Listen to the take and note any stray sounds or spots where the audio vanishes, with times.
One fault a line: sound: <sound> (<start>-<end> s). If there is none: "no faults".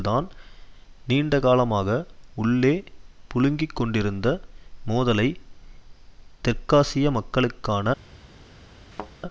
sound: thud (8.9-9.1 s)